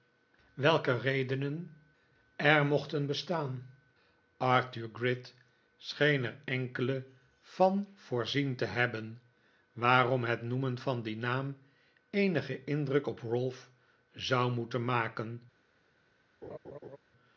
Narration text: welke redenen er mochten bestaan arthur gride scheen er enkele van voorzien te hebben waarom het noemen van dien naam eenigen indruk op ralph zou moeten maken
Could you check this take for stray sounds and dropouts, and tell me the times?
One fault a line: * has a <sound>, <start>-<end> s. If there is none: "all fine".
* has a laugh, 16.4-17.0 s